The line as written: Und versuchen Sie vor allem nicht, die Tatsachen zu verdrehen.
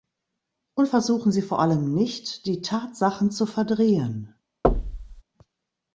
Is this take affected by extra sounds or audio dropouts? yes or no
yes